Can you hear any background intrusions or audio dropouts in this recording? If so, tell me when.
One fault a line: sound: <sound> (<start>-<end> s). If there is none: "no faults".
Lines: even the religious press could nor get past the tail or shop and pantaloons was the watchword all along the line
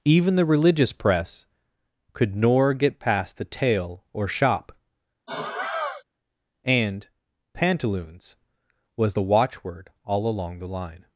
sound: sigh (5.3-6.0 s)